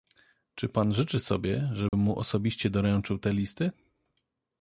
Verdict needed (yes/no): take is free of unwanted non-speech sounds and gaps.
no